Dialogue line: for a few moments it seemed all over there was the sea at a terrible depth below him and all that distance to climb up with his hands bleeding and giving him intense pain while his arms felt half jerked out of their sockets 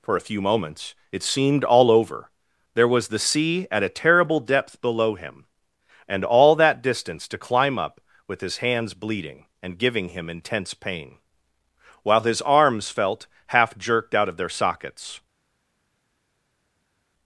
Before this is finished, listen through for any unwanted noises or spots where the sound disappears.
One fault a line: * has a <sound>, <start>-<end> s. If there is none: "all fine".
all fine